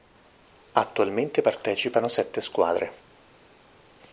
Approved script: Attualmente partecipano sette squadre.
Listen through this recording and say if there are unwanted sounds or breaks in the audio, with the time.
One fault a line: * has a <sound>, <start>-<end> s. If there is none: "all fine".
all fine